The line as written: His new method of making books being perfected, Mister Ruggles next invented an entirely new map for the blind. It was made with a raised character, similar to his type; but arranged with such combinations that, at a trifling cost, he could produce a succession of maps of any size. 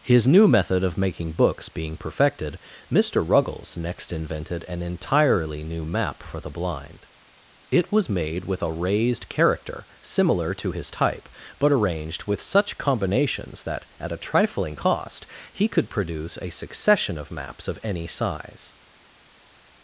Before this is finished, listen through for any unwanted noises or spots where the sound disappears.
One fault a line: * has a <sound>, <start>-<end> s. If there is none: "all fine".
all fine